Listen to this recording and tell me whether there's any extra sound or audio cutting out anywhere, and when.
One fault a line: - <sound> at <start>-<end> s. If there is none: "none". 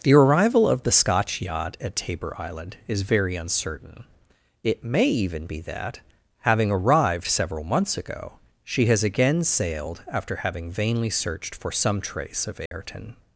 - dropout at 12.7-12.7 s